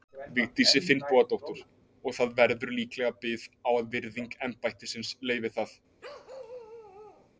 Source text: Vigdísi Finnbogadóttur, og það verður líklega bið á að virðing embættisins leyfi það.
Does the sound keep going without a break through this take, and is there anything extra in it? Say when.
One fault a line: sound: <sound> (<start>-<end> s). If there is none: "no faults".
sound: bark (6.0-7.3 s)